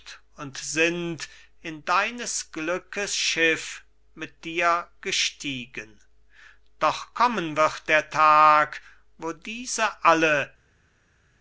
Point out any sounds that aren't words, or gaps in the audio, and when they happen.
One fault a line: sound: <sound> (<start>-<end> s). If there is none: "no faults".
no faults